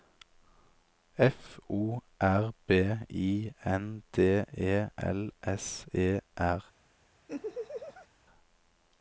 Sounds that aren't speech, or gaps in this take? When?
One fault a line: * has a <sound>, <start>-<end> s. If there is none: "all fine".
* has a laugh, 7.3-8.1 s